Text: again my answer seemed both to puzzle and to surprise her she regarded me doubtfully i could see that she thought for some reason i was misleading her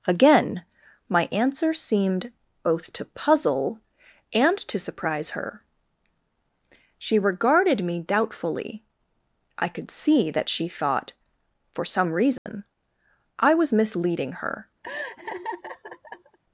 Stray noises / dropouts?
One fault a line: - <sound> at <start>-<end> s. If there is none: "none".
- dropout at 12.4-12.5 s
- laugh at 14.8-16.4 s